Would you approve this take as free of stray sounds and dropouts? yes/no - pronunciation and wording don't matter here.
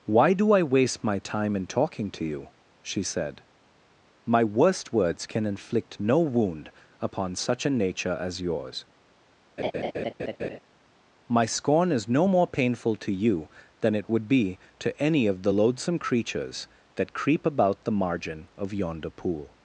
no